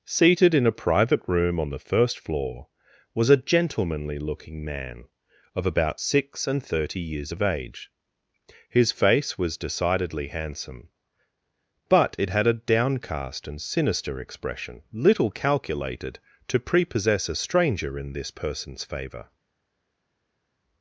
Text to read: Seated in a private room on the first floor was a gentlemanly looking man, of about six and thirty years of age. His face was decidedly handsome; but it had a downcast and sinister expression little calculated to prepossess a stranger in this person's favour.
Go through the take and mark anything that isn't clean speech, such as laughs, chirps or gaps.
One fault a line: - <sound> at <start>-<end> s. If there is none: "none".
none